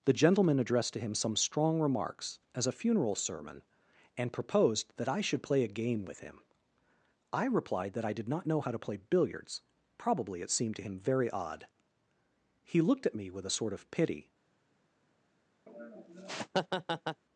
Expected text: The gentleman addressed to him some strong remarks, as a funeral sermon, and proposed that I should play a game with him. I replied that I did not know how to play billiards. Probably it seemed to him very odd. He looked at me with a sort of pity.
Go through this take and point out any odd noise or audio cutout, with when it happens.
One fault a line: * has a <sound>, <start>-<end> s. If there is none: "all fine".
* has a laugh, 15.7-17.2 s